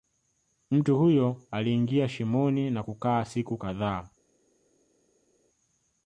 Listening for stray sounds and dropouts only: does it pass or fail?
pass